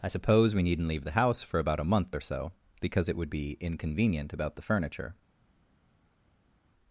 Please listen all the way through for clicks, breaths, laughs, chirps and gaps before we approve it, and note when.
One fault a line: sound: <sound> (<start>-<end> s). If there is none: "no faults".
no faults